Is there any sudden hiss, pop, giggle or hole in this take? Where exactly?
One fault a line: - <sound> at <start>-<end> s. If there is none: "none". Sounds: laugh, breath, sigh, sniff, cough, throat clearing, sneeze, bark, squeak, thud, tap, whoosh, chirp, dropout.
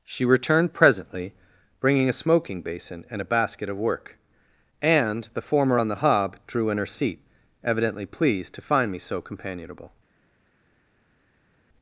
none